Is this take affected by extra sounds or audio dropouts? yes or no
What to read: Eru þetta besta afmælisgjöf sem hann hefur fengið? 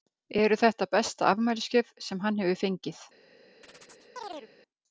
yes